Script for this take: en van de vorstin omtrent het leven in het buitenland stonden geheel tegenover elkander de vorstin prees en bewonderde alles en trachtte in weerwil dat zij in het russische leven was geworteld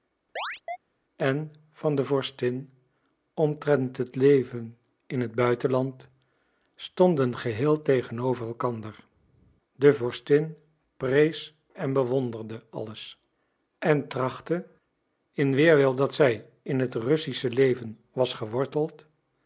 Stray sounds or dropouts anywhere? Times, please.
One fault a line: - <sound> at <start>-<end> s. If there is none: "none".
- chirp at 0.4-0.8 s